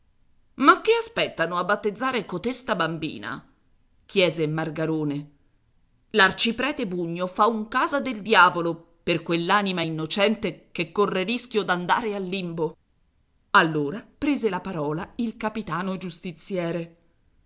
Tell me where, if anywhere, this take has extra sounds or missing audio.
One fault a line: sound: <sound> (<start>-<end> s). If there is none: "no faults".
no faults